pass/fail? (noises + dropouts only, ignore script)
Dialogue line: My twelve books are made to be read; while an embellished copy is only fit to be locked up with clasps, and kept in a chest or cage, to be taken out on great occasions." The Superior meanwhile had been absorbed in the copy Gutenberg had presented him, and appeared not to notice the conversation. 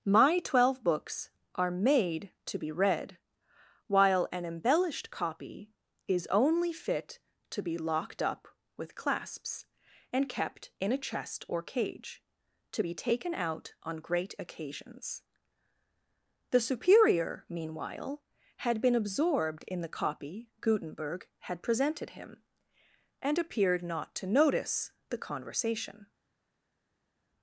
pass